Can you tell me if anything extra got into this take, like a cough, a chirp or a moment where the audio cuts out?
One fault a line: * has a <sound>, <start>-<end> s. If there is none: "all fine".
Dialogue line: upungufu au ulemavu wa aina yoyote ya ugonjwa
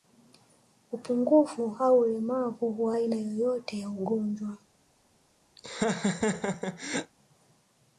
* has a laugh, 5.6-7.1 s